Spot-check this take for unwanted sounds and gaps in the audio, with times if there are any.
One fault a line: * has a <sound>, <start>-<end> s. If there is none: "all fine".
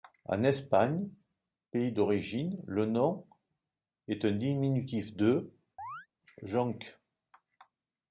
* has a chirp, 5.8-6.1 s